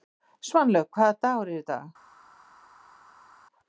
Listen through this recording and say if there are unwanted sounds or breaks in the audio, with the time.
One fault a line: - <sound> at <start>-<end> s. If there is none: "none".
none